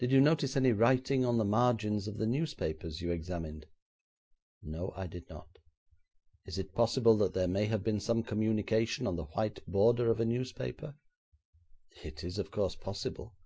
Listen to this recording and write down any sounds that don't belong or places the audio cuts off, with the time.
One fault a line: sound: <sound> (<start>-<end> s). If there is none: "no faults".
no faults